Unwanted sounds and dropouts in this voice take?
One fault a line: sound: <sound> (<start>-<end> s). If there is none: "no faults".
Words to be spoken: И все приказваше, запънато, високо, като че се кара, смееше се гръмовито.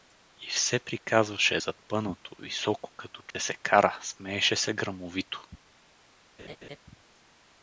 sound: dropout (3.3-3.3 s)
sound: laugh (6.4-6.8 s)